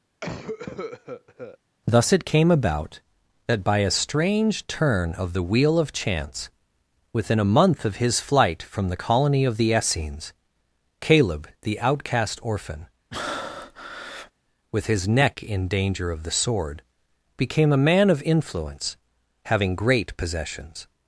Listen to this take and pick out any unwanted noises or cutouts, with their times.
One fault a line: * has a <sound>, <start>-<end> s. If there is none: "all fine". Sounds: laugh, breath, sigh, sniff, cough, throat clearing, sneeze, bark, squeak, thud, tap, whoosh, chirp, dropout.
* has a cough, 0.2-1.6 s
* has a breath, 13.1-14.3 s